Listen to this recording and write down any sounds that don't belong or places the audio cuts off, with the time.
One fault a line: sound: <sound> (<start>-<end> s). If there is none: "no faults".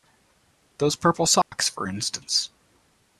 sound: dropout (1.4-1.5 s)